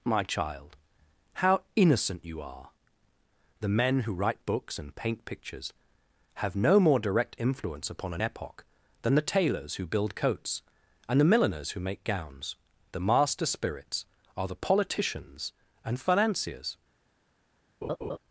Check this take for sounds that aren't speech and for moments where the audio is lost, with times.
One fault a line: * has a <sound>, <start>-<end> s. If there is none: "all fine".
* has a laugh, 17.8-18.2 s